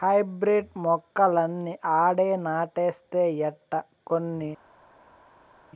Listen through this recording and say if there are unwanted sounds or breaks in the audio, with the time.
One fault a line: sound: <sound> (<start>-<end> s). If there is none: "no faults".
no faults